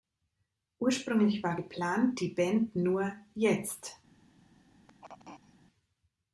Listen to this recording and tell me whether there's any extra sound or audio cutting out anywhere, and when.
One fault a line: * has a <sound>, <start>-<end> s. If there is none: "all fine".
* has a throat clearing, 4.9-5.6 s